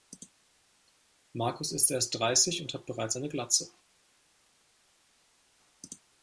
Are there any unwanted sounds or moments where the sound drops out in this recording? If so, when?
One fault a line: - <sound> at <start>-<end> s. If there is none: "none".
none